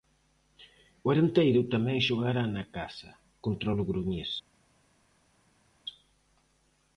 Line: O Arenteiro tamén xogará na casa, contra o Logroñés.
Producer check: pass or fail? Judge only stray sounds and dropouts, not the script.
pass